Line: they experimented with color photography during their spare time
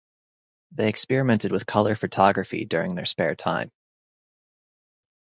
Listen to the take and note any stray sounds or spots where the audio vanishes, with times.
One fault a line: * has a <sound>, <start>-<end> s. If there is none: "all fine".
all fine